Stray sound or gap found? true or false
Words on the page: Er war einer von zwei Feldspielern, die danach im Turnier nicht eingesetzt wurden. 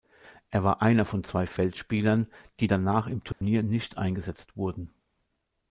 true